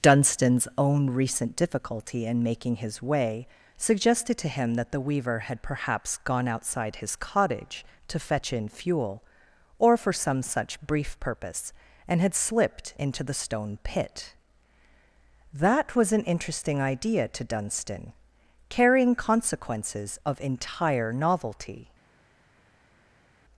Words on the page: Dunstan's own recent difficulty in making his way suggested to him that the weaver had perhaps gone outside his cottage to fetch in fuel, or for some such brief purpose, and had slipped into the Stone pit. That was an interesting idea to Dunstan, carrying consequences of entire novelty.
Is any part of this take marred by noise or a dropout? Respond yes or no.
no